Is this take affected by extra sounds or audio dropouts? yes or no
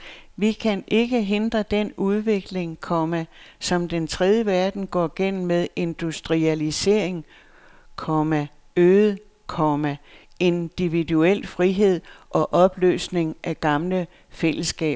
no